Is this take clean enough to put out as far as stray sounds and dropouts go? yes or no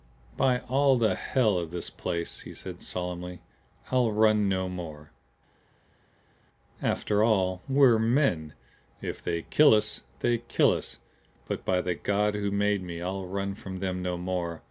yes